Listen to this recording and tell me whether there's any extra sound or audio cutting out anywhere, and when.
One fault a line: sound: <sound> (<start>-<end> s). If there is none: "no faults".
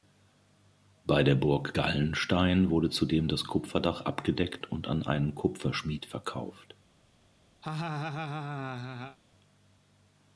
sound: laugh (7.6-9.2 s)